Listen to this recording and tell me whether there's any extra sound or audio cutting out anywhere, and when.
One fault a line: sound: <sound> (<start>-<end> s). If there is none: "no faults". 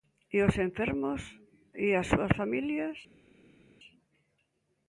no faults